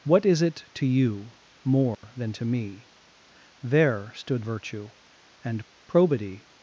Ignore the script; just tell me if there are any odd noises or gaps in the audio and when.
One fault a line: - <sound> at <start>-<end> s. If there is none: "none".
- dropout at 1.9-2.0 s